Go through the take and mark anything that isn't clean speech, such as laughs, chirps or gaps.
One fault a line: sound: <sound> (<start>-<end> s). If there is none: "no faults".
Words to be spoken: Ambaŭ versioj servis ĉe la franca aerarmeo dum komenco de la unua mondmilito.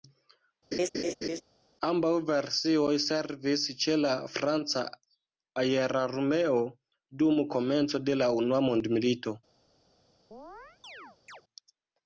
sound: laugh (0.7-1.4 s)
sound: chirp (10.3-11.4 s)